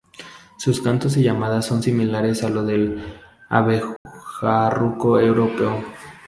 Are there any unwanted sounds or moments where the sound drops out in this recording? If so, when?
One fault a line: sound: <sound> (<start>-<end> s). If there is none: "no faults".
sound: dropout (4.0-4.1 s)